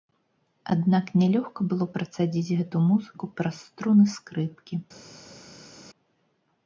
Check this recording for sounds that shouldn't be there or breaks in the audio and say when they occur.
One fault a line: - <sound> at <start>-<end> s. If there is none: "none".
none